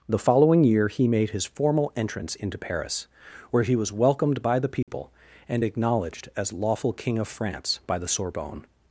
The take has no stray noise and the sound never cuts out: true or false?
false